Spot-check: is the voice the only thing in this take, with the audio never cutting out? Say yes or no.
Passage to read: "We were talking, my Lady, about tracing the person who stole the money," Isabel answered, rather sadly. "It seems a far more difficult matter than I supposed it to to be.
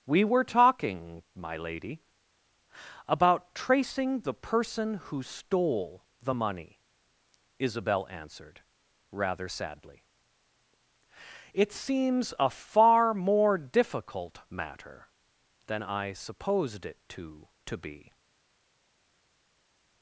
yes